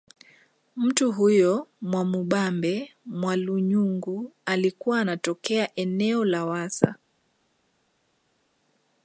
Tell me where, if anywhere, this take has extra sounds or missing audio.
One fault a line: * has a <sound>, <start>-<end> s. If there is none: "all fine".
all fine